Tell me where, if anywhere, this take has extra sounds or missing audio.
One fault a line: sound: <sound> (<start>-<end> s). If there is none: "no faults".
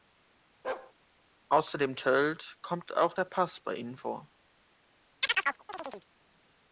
sound: bark (0.6-0.9 s)
sound: chirp (5.2-6.1 s)